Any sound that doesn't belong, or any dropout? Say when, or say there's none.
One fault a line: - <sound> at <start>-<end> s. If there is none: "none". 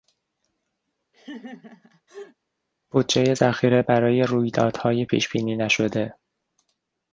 - laugh at 1.1-2.4 s